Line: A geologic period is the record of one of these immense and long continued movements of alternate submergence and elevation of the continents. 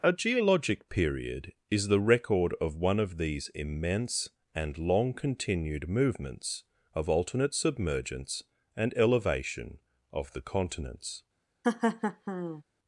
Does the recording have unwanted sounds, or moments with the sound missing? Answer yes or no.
yes